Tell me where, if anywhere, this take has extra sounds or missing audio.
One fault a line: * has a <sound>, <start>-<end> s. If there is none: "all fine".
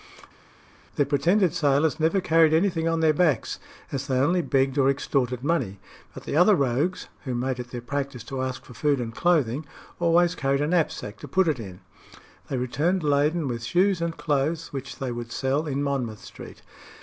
all fine